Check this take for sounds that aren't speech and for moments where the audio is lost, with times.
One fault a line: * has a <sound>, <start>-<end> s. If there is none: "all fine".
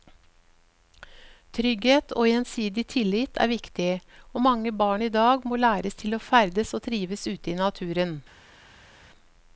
all fine